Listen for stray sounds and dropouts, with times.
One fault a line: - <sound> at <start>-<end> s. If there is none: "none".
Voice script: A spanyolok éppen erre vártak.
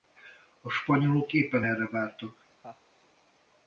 - laugh at 2.6-2.8 s